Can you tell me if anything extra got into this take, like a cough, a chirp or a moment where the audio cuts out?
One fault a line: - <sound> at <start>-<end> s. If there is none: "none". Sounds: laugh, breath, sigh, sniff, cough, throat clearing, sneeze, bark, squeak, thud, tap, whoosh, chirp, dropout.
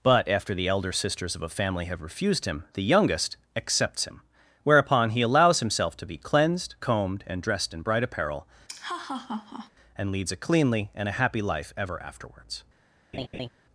- laugh at 8.7-9.7 s
- laugh at 13.1-13.5 s